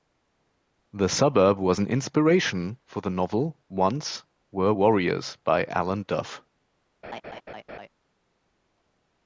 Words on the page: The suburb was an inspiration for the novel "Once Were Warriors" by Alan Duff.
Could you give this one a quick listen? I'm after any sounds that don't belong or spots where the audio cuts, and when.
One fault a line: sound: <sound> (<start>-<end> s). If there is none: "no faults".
sound: laugh (7.0-7.9 s)